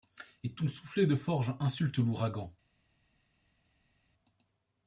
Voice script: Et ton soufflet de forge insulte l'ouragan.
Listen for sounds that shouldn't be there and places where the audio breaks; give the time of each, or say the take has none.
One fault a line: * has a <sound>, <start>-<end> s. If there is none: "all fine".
all fine